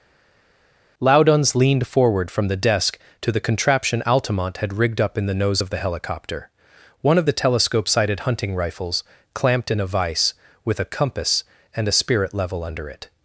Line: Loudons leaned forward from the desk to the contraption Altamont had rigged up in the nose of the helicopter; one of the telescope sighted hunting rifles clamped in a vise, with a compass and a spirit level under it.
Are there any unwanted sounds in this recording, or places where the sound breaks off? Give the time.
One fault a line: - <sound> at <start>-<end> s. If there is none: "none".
none